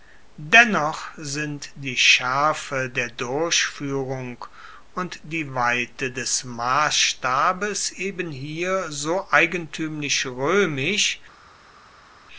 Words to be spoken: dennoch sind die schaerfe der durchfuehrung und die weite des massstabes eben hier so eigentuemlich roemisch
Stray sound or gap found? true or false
false